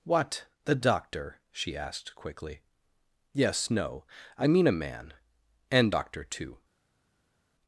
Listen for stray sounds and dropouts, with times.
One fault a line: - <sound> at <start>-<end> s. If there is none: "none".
none